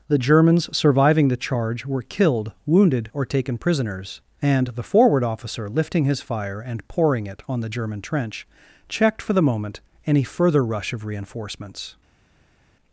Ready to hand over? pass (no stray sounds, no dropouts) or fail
pass